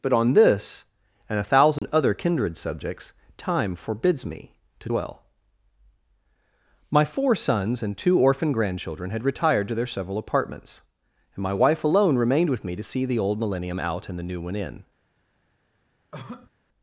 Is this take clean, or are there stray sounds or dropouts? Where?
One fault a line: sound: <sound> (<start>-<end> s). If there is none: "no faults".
sound: dropout (1.8-1.8 s)
sound: cough (16.1-16.5 s)